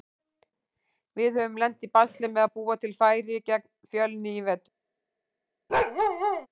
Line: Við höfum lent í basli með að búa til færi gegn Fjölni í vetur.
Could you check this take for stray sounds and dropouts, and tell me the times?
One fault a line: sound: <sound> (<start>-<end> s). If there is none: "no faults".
sound: bark (5.7-6.5 s)